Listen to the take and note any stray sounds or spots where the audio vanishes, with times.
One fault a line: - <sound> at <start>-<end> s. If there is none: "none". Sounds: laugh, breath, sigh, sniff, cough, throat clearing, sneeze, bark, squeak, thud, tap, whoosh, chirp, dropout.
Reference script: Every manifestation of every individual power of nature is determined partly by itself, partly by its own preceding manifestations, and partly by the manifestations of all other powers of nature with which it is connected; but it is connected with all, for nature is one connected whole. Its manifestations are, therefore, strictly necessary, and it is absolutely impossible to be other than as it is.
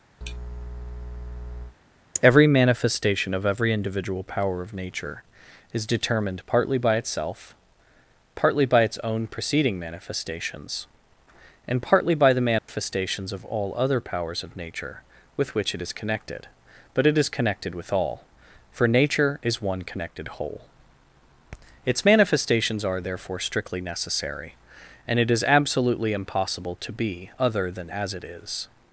- sneeze at 0.2-1.8 s
- dropout at 12.6-12.7 s